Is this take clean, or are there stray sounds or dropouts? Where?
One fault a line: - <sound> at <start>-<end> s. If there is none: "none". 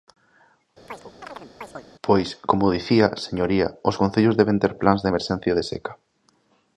- chirp at 0.9-1.9 s